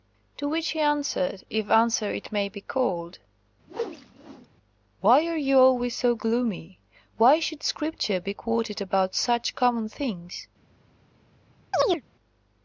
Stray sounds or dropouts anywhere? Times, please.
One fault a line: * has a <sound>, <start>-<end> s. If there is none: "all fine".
* has a whoosh, 3.7-4.5 s
* has a chirp, 11.7-12.0 s